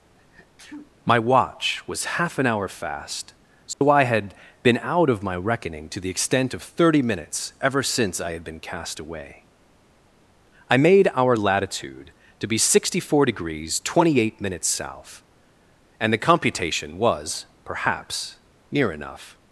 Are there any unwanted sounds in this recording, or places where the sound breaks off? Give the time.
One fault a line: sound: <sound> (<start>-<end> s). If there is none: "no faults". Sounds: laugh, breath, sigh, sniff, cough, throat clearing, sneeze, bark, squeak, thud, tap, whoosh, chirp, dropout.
sound: sneeze (0.2-0.9 s)
sound: dropout (3.7-3.8 s)